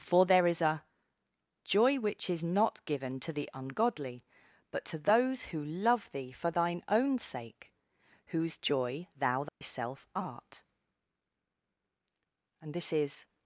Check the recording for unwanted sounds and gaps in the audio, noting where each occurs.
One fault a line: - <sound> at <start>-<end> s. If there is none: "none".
- dropout at 9.5-9.6 s